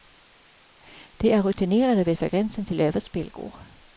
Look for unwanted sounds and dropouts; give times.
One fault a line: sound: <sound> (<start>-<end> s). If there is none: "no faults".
no faults